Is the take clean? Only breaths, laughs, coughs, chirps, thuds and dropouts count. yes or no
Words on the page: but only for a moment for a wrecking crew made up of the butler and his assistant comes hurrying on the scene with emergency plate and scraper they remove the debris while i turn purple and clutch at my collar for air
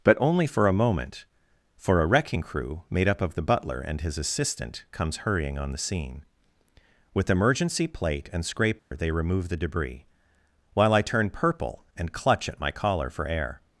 no